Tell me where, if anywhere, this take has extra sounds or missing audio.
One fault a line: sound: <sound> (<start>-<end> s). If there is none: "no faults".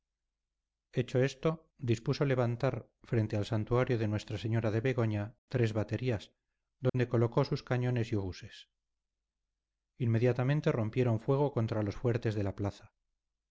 sound: dropout (6.9-6.9 s)